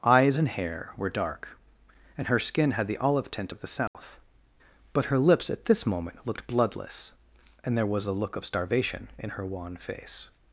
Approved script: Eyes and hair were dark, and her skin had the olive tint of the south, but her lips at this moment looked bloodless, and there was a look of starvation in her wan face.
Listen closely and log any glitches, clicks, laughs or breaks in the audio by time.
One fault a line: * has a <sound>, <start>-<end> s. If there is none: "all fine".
* has a dropout, 3.9-3.9 s